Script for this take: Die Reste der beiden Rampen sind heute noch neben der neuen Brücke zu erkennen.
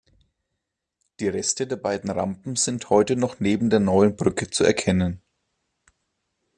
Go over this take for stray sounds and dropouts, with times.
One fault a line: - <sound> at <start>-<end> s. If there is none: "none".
none